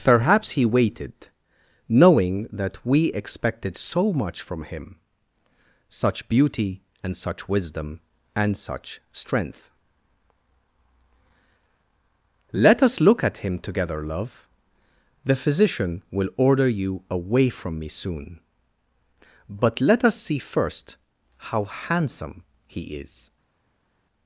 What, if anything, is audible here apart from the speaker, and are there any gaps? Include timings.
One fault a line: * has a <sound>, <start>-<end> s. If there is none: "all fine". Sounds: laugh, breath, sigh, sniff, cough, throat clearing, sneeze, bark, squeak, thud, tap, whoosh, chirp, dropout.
all fine